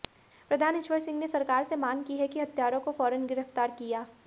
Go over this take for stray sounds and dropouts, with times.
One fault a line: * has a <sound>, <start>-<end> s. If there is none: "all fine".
all fine